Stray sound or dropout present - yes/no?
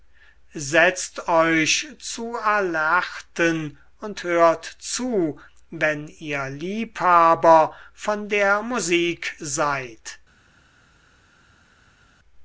no